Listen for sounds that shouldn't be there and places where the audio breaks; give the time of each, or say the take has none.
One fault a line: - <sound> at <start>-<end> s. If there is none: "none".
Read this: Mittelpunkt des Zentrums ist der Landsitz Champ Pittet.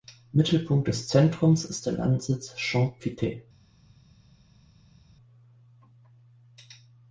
none